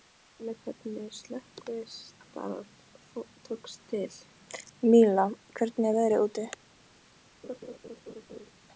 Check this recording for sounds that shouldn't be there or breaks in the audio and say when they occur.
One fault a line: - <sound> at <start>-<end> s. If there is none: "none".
- laugh at 7.4-8.5 s